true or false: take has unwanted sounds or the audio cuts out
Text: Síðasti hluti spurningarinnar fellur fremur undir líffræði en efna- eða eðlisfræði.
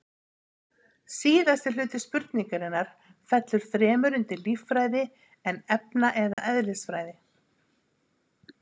true